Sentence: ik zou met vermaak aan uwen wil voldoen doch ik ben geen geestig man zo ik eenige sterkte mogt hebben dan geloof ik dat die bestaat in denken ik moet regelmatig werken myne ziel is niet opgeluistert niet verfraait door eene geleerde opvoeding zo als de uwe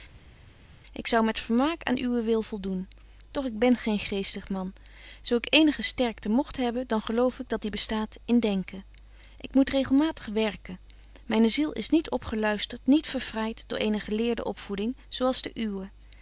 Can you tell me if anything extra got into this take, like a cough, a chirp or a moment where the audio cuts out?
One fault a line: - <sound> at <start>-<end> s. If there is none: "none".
none